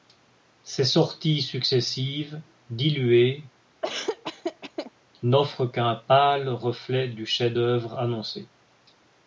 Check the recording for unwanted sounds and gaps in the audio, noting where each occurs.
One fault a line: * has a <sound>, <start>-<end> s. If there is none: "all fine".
* has a laugh, 3.8-4.9 s